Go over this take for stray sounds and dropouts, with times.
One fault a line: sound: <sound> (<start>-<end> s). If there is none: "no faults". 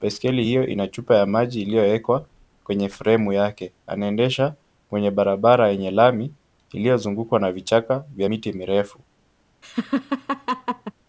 sound: laugh (9.6-10.9 s)